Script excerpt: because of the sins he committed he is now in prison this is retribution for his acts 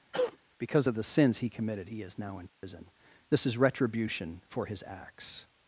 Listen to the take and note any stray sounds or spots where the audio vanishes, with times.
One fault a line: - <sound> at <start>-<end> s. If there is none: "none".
- cough at 0.1-0.4 s
- dropout at 2.5-2.6 s